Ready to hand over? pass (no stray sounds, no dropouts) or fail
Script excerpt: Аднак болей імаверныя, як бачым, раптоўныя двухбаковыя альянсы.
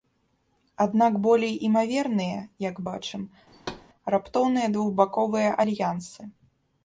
fail